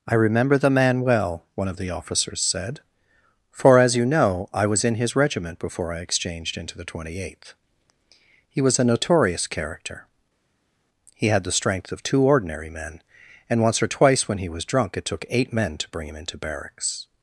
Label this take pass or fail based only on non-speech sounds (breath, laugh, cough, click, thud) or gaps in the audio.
pass